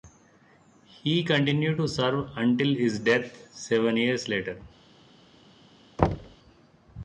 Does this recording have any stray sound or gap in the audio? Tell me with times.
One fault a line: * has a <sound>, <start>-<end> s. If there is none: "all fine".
* has a thud, 6.0-6.4 s